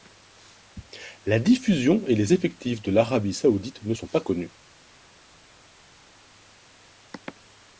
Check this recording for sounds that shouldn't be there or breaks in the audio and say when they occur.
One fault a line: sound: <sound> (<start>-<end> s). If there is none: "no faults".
no faults